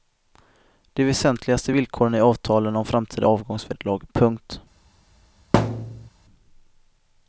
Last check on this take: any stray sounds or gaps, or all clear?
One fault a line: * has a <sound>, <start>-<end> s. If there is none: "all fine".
* has a thud, 5.5-6.1 s